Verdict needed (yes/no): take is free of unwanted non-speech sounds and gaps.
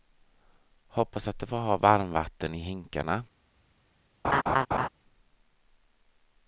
no